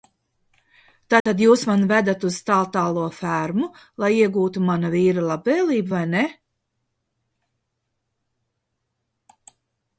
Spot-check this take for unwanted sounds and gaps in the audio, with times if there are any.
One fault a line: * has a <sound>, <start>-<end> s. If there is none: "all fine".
* has a dropout, 1.2-1.3 s